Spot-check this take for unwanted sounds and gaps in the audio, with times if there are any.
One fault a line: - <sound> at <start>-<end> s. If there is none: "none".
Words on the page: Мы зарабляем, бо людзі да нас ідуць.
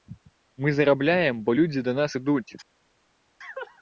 none